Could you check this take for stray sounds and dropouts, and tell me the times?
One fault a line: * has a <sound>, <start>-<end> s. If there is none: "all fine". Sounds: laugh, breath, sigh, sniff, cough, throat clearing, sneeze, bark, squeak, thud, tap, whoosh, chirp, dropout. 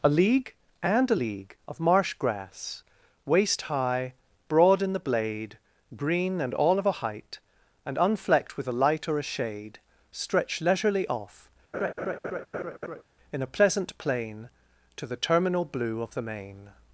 * has a laugh, 11.7-13.0 s